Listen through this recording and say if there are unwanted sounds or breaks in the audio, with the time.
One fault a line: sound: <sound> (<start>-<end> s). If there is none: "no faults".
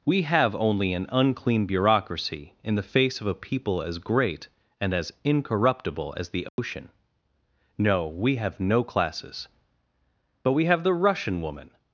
sound: dropout (6.5-6.6 s)